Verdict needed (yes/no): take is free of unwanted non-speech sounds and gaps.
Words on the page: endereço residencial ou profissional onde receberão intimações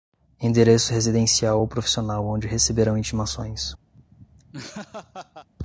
no